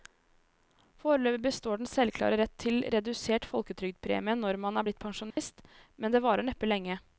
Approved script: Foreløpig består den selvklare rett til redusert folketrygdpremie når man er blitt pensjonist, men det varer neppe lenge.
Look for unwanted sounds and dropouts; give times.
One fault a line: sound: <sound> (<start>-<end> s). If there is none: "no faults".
sound: dropout (5.3-5.4 s)